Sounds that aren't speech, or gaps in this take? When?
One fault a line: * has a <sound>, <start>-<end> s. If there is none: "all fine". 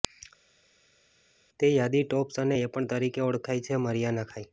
all fine